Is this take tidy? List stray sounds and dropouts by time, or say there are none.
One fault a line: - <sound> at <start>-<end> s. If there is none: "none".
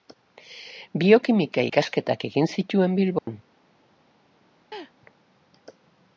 - dropout at 3.2-3.3 s
- laugh at 4.7-4.9 s